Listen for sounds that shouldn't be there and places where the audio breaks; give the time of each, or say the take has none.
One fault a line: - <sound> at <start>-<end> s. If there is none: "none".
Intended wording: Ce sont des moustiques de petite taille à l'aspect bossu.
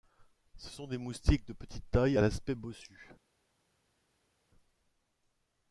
none